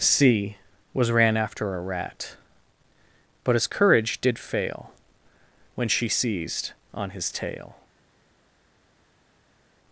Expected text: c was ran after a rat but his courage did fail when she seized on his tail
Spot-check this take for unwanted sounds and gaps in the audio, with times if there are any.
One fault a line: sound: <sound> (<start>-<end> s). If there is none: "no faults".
no faults